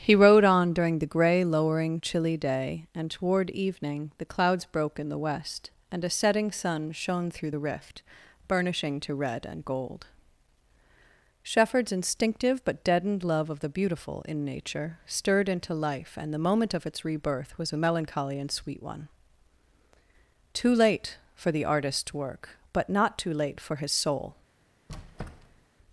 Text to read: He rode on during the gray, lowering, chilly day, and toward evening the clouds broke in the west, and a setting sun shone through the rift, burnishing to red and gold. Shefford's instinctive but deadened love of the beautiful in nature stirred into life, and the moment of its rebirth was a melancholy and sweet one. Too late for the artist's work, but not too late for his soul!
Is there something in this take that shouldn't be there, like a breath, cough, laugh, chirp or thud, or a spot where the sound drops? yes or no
yes